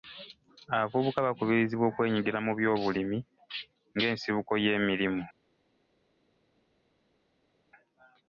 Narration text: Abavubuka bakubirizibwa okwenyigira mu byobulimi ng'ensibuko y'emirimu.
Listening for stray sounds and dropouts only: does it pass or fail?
pass